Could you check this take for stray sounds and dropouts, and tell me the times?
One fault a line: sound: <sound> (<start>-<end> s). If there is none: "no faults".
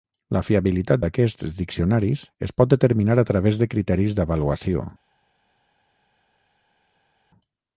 no faults